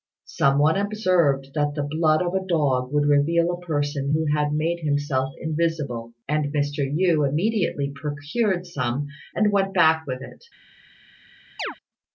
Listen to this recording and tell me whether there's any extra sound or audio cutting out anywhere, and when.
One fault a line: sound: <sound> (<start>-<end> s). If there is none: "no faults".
sound: chirp (11.6-11.8 s)